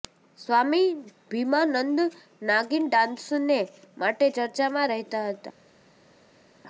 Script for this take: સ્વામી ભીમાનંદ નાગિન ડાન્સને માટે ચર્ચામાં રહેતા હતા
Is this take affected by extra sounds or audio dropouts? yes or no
no